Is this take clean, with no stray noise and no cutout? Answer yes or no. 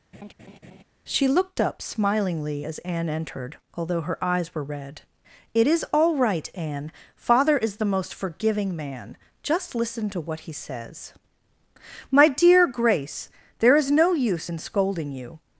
no